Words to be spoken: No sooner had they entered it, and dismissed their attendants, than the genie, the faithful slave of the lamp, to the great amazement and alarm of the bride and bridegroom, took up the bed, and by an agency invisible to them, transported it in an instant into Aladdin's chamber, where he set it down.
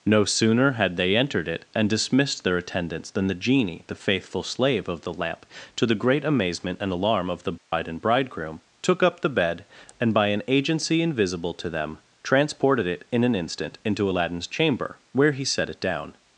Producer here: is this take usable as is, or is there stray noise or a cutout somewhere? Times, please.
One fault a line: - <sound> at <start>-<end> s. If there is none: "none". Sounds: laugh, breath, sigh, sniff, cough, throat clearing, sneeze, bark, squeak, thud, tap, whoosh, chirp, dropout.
- dropout at 7.6-7.7 s